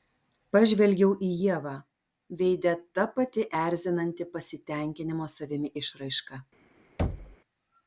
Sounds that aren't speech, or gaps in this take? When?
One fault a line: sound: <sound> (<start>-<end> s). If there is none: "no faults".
sound: thud (7.0-7.4 s)